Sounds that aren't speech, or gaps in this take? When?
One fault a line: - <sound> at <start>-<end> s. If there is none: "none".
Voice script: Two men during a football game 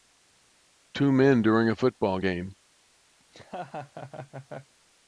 - laugh at 3.2-4.7 s